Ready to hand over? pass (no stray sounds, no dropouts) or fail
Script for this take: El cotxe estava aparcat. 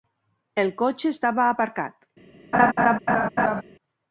fail